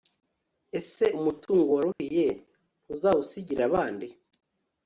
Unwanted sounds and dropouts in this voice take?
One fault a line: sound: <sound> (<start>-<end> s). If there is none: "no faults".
sound: dropout (1.9-2.0 s)